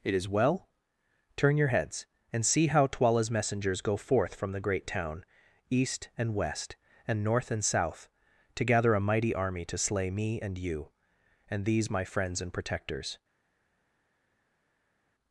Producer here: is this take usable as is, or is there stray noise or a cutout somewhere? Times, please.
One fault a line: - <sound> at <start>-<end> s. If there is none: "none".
none